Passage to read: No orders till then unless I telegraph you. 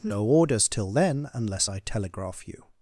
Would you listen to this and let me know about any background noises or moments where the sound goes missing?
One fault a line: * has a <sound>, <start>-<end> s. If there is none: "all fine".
all fine